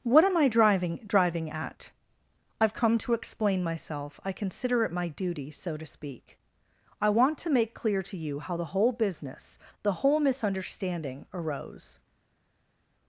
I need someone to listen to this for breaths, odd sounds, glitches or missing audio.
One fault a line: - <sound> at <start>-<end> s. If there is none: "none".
none